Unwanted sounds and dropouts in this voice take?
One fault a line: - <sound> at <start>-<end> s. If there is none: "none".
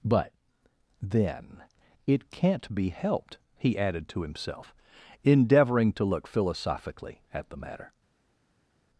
none